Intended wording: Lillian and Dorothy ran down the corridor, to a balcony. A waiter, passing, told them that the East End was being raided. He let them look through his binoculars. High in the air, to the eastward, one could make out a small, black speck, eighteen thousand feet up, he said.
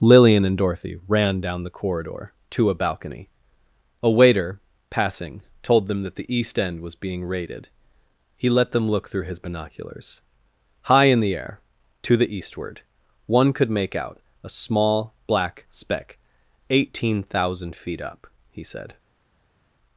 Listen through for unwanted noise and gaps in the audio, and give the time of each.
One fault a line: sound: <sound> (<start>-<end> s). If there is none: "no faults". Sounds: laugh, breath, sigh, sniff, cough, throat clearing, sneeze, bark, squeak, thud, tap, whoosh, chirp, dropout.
no faults